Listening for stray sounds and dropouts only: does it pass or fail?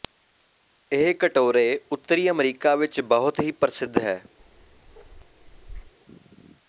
fail